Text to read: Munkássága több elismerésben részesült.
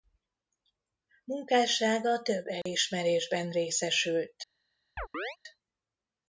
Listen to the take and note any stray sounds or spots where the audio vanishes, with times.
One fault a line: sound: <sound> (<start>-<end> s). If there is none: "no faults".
sound: dropout (2.6-2.7 s)
sound: chirp (5.0-5.4 s)